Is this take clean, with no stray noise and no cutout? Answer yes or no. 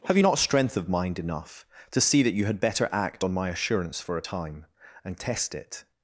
yes